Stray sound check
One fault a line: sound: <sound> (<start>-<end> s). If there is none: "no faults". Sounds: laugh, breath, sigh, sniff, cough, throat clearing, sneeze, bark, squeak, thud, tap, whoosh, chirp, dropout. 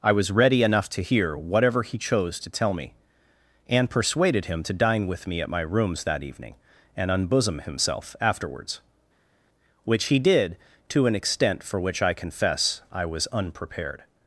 no faults